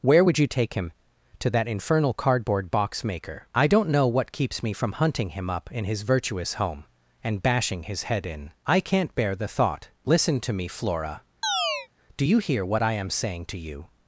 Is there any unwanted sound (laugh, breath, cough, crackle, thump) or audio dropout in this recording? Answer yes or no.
yes